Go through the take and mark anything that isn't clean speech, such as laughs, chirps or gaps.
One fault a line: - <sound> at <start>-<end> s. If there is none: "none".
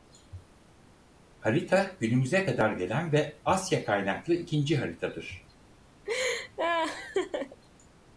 - laugh at 6.1-7.6 s